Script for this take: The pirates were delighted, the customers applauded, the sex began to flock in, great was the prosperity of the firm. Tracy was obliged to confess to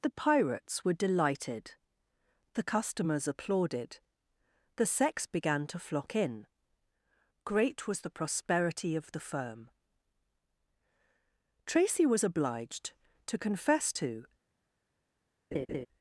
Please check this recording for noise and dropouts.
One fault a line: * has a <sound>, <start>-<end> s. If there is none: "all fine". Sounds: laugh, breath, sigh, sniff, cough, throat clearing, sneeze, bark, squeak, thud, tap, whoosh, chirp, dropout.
* has a laugh, 15.5-15.9 s